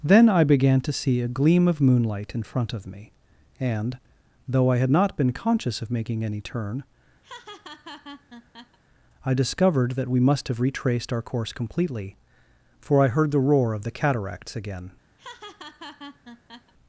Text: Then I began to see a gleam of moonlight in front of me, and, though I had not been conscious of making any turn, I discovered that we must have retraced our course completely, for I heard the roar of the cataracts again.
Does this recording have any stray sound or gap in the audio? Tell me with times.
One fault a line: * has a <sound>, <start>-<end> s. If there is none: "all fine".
* has a laugh, 7.2-8.8 s
* has a laugh, 15.2-16.7 s